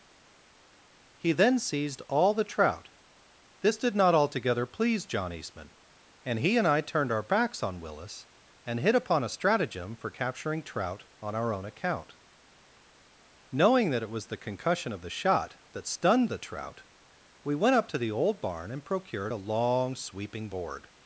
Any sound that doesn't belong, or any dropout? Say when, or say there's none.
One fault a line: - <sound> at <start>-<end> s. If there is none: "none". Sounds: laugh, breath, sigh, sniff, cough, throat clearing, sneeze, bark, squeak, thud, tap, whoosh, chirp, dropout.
none